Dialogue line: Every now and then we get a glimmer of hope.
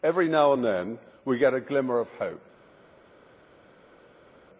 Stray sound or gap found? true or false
false